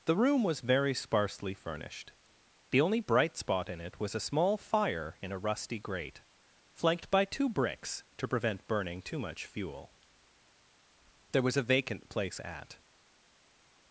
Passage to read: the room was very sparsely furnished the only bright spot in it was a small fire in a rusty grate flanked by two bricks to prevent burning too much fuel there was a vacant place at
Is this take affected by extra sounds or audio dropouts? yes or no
no